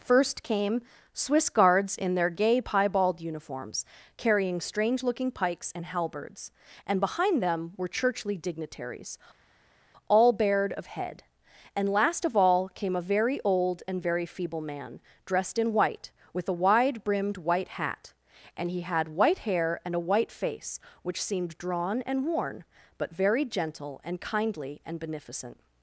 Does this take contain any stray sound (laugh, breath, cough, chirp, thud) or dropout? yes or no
no